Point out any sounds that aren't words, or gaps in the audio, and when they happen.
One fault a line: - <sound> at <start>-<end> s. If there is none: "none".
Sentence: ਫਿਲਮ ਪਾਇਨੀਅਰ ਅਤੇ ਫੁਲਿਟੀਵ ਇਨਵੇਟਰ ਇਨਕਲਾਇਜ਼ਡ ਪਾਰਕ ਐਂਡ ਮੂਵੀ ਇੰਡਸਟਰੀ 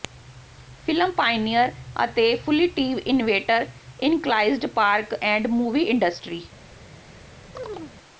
- chirp at 7.5-7.9 s